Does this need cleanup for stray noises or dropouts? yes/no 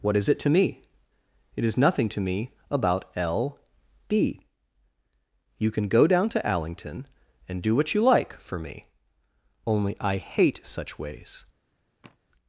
yes